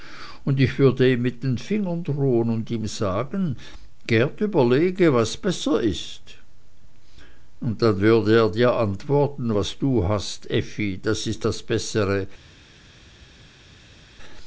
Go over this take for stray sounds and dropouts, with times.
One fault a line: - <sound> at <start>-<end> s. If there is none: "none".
none